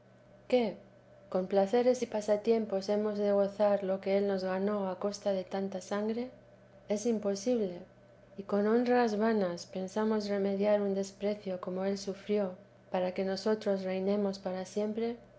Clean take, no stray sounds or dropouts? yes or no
yes